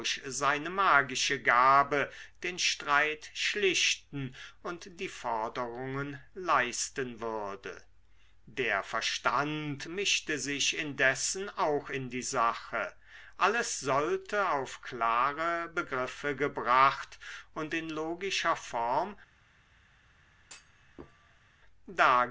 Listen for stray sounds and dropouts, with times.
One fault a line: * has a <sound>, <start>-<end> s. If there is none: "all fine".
* has a thud, 20.4-21.6 s